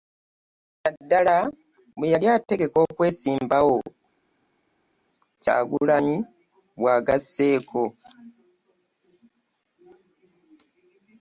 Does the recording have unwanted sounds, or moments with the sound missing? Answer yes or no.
no